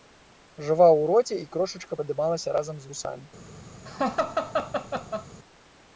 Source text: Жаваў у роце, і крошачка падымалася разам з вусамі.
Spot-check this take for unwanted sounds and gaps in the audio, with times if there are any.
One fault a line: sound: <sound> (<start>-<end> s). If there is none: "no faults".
sound: laugh (3.9-5.3 s)